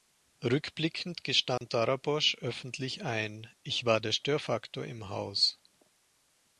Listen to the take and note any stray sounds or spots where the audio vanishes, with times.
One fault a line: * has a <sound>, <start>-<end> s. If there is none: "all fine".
* has a dropout, 1.6-1.6 s